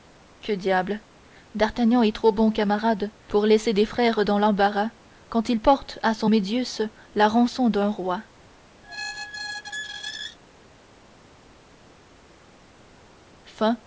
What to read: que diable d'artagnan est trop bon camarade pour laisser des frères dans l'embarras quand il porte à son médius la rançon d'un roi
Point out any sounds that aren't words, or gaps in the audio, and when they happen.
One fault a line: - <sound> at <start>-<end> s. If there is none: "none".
- squeak at 8.8-10.4 s